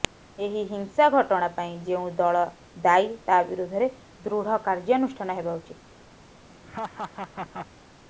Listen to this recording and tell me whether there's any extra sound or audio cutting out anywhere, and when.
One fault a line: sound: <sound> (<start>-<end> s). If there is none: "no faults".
sound: laugh (6.6-7.7 s)